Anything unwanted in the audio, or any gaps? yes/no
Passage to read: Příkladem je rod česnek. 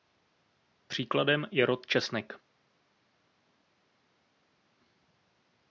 no